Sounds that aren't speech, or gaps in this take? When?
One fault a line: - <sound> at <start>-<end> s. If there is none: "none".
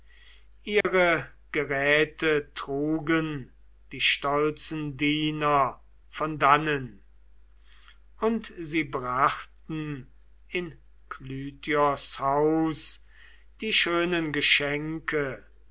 - dropout at 0.8-0.8 s